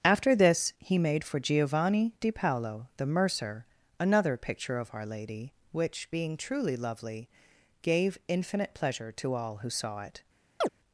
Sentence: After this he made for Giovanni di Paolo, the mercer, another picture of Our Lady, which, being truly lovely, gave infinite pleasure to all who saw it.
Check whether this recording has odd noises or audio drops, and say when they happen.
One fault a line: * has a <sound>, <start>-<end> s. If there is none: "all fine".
* has a chirp, 10.6-10.7 s